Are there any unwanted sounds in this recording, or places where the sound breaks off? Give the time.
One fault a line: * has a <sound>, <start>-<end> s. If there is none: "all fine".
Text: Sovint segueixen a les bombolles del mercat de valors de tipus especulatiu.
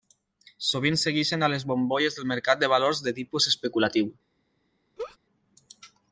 * has a laugh, 5.0-5.2 s